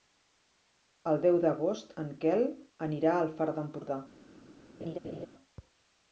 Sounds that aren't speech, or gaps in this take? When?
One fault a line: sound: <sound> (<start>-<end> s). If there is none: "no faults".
sound: laugh (4.8-5.3 s)